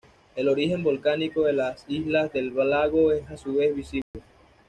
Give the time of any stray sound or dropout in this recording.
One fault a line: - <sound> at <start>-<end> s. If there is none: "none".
- dropout at 4.0-4.1 s